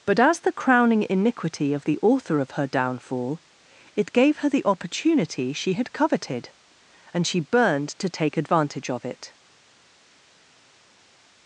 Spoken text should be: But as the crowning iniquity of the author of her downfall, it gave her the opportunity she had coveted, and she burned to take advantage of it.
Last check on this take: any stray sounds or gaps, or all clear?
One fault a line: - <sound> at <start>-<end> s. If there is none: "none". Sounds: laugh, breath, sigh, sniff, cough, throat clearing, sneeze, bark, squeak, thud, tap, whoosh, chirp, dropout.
none